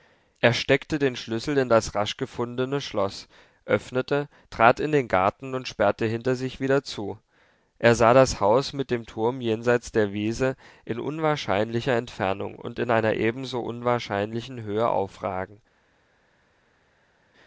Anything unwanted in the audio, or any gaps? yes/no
no